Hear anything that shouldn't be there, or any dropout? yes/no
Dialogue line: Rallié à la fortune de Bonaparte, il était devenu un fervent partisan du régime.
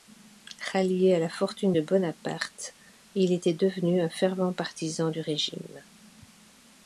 no